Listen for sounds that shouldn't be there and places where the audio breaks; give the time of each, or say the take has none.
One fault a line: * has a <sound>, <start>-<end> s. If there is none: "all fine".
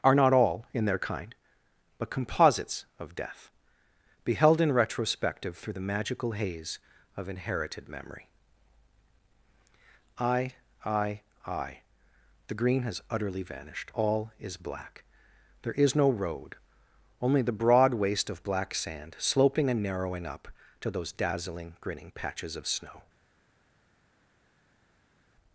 all fine